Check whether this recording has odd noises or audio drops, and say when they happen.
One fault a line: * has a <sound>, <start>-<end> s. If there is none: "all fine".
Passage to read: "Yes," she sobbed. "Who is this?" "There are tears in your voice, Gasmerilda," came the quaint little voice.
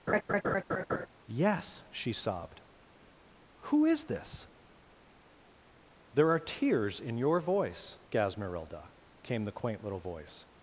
* has a laugh, 0.1-1.1 s